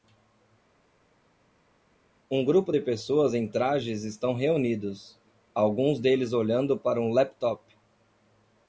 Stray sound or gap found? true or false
false